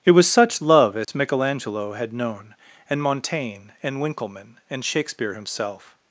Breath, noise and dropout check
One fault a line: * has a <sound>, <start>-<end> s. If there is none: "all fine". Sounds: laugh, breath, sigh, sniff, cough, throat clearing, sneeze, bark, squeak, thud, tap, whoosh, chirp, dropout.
* has a dropout, 1.0-1.1 s